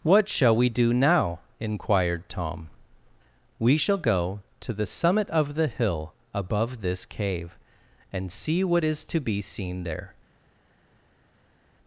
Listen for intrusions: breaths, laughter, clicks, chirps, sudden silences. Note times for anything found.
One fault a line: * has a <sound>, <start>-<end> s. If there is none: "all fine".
all fine